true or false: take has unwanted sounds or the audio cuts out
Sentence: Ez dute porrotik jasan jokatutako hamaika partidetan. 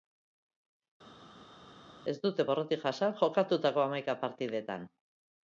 false